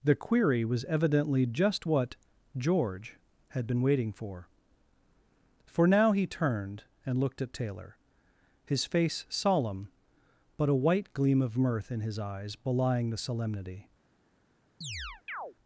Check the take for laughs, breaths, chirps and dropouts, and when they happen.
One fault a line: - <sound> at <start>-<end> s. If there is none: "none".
- chirp at 14.8-15.5 s